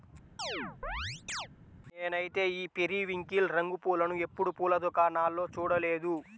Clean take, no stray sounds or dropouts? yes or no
no